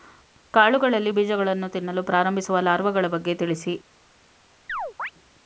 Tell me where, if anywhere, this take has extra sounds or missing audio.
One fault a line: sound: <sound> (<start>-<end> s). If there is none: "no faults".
sound: chirp (4.7-5.1 s)